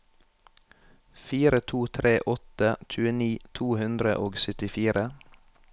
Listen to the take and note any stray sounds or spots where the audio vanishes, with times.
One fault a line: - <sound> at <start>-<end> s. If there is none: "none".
none